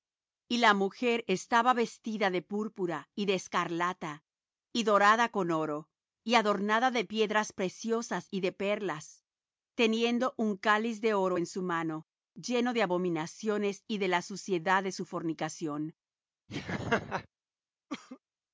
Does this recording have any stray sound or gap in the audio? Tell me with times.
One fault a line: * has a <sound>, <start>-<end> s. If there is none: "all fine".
* has a laugh, 16.5-17.3 s
* has a cough, 17.9-18.2 s